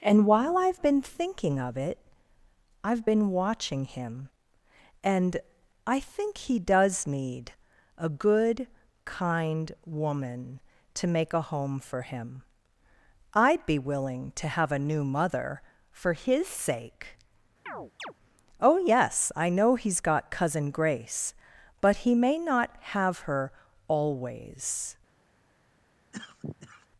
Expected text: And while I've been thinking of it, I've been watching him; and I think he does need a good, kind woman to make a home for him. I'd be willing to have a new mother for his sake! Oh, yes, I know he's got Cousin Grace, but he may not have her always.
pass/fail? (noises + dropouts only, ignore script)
fail